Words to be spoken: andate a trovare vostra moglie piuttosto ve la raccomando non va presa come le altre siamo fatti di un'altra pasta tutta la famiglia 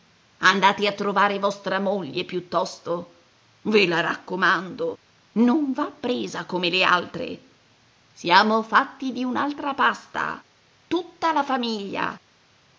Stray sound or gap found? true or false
false